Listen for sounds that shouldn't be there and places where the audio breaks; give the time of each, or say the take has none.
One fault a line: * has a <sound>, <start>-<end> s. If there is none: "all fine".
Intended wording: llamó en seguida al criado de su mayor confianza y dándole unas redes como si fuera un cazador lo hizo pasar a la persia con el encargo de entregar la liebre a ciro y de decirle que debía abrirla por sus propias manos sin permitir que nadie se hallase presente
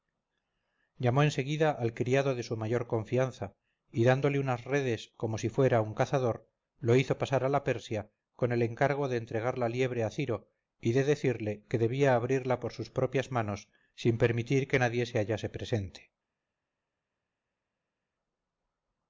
all fine